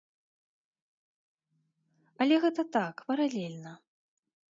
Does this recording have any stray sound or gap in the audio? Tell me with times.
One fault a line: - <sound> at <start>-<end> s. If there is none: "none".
none